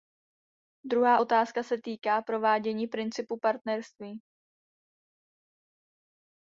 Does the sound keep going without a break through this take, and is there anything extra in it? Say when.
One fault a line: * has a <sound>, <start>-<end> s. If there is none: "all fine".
all fine